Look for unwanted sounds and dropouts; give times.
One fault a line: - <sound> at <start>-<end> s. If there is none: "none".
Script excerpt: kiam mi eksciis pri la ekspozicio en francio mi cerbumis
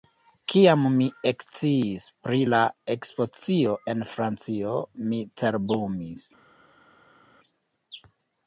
none